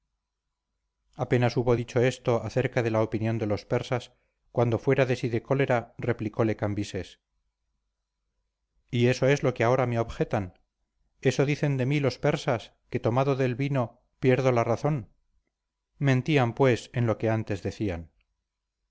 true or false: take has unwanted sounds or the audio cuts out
false